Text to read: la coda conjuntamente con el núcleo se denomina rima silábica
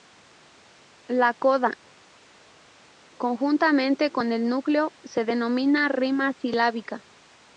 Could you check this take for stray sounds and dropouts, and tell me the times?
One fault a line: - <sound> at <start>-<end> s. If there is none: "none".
none